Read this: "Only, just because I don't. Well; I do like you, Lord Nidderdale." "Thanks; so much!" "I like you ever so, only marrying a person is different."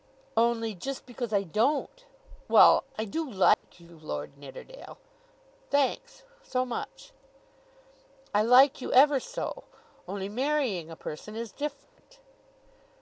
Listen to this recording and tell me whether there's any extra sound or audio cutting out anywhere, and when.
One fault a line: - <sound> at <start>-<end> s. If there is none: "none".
- dropout at 3.5-3.6 s
- dropout at 11.8-12.0 s